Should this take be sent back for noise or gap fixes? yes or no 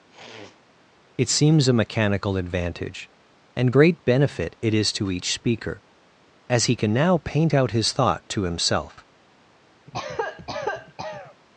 yes